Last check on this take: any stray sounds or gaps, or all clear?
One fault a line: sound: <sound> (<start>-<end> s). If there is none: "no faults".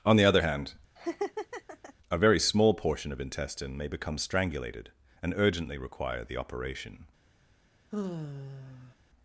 sound: laugh (1.0-1.9 s)
sound: sigh (7.9-9.0 s)